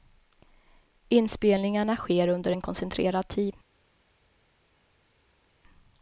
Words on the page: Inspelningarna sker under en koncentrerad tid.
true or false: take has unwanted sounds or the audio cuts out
false